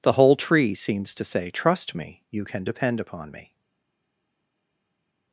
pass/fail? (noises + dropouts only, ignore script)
pass